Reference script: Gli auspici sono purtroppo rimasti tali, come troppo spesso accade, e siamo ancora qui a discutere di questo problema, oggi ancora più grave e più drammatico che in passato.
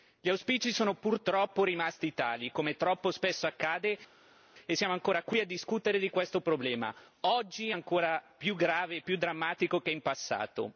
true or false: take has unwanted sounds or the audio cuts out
false